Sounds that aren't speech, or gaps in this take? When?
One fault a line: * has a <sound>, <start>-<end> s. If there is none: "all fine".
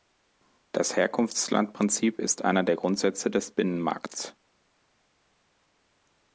all fine